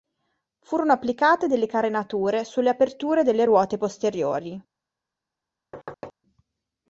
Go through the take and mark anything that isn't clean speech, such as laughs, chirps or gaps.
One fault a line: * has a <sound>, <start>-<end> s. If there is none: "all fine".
* has a thud, 5.7-6.1 s